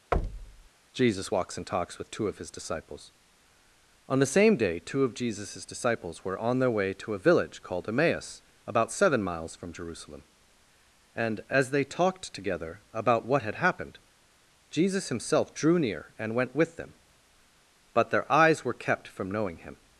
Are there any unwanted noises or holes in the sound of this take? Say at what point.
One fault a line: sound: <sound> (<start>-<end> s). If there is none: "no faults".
sound: thud (0.1-0.7 s)